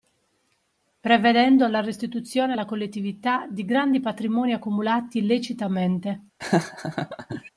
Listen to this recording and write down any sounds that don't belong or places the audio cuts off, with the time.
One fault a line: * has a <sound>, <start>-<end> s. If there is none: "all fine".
* has a laugh, 6.4-7.5 s